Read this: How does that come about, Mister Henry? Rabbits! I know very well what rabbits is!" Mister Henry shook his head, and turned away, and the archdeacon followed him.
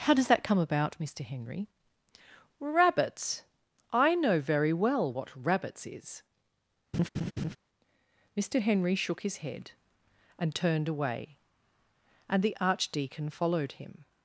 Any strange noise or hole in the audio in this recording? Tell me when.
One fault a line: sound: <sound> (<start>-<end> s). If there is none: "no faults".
sound: laugh (6.9-7.6 s)